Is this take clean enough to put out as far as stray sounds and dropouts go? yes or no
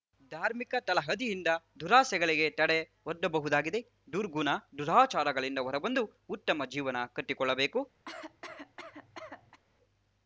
no